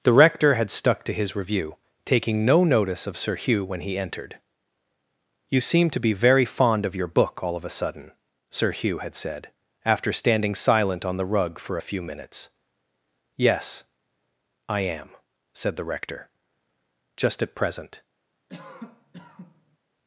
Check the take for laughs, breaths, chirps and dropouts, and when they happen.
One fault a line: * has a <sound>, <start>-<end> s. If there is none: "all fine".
* has a cough, 18.5-19.8 s